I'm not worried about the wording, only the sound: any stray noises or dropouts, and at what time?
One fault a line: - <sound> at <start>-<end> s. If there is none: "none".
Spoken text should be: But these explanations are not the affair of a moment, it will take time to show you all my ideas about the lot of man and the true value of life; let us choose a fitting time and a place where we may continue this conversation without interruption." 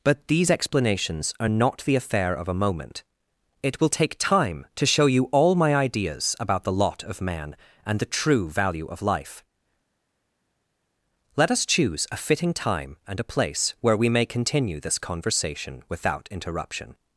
none